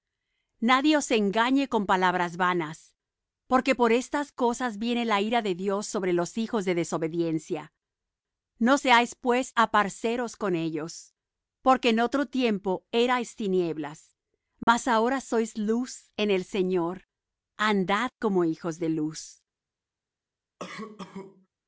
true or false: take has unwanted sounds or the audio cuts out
true